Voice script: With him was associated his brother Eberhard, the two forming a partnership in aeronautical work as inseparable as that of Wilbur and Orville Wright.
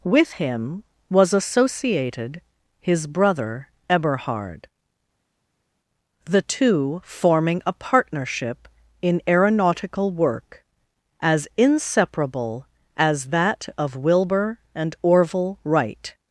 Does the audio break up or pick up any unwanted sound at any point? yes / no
no